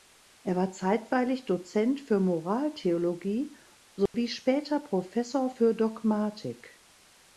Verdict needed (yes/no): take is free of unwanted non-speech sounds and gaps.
no